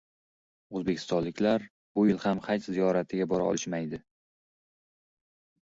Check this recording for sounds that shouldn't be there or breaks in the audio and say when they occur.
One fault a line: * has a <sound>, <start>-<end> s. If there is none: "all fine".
all fine